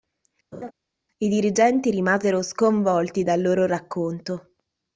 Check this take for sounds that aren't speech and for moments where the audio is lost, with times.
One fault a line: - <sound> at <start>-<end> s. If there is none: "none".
- laugh at 0.5-0.7 s